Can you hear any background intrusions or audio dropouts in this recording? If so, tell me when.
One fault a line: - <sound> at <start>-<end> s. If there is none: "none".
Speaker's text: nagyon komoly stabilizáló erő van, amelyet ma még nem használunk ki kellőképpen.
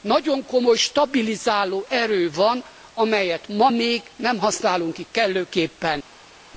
none